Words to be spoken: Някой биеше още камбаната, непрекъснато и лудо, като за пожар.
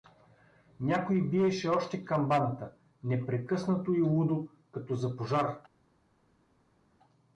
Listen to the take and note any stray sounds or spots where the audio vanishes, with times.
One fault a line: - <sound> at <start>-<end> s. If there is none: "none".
none